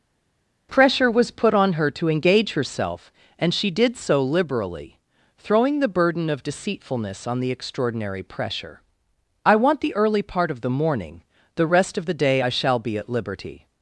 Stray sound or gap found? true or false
false